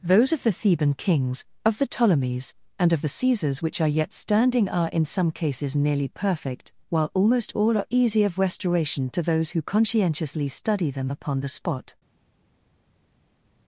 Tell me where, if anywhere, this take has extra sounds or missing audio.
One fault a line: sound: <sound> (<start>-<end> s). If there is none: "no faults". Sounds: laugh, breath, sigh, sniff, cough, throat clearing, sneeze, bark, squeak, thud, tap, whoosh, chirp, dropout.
no faults